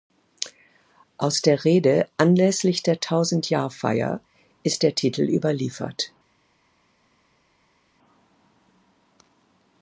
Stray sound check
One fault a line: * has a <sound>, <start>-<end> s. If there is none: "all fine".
all fine